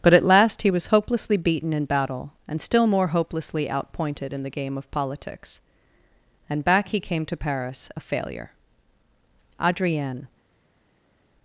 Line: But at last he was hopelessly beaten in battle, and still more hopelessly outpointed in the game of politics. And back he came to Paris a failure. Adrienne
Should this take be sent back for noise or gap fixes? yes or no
no